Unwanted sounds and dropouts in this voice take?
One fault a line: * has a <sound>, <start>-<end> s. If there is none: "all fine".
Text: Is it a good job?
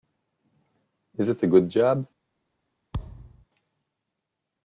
* has a thud, 2.9-3.4 s